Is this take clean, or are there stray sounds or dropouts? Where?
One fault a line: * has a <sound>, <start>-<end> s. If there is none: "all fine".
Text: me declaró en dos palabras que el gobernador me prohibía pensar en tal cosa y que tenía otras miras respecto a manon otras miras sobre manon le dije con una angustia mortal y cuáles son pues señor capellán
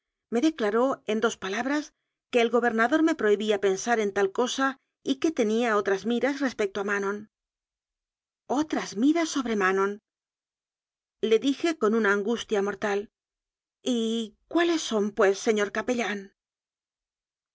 all fine